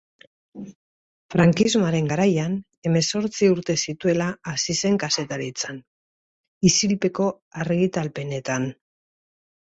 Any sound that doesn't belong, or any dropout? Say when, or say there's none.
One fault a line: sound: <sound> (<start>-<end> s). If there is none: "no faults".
no faults